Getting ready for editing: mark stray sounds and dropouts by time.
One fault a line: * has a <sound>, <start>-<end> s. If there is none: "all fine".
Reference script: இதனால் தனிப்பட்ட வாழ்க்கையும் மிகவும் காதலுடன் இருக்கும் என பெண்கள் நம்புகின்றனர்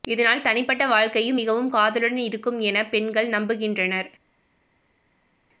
all fine